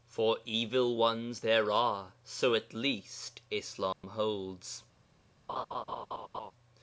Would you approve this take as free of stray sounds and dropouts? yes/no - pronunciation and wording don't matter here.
no